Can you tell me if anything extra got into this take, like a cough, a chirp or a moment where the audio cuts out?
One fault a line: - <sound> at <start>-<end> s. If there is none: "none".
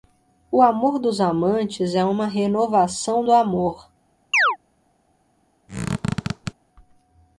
- chirp at 4.3-4.6 s
- squeak at 5.7-6.5 s